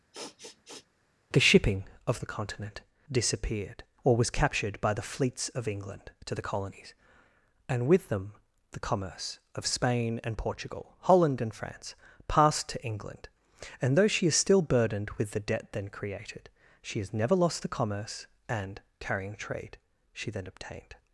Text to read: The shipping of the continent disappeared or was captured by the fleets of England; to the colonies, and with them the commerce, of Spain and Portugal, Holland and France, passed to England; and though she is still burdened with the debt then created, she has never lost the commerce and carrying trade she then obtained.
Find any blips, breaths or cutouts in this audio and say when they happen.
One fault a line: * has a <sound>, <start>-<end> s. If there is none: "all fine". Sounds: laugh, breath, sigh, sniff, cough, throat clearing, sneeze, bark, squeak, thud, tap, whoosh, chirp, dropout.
* has a sniff, 0.1-0.9 s